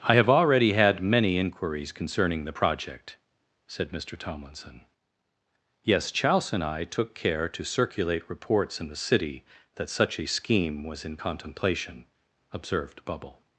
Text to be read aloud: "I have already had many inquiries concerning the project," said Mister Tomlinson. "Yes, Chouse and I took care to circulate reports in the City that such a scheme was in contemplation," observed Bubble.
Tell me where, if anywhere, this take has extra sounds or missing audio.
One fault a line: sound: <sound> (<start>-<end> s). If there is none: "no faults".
no faults